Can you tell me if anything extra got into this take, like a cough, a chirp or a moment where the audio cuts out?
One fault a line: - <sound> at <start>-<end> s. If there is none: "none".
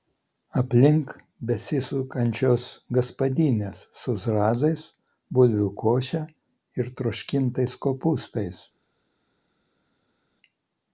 none